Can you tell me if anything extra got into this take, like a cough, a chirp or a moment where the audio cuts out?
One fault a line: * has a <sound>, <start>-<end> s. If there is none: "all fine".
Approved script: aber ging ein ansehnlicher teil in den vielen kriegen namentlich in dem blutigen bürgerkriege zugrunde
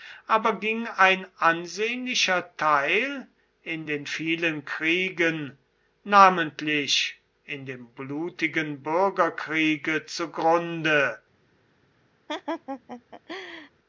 * has a laugh, 12.3-13.7 s